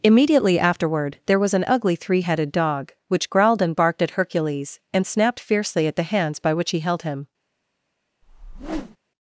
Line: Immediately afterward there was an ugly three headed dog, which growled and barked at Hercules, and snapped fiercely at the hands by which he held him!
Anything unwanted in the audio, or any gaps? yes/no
yes